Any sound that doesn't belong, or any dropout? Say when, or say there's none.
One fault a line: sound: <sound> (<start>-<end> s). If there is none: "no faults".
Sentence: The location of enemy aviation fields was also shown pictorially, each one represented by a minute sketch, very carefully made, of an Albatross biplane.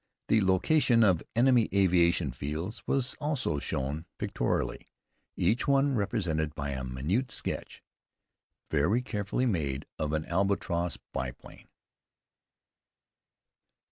no faults